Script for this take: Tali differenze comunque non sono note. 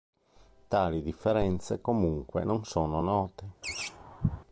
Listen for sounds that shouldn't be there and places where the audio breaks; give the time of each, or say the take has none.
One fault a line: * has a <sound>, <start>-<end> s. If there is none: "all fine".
* has a laugh, 3.6-4.4 s